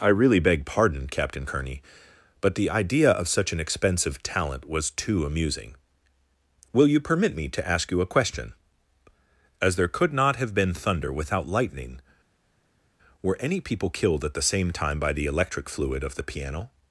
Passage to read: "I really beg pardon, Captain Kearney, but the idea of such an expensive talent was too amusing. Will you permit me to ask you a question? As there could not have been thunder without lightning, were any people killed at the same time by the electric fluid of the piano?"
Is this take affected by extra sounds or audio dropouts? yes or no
no